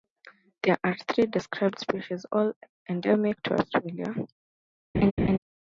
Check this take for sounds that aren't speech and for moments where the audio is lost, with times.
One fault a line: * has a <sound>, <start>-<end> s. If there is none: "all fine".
* has a laugh, 4.9-5.4 s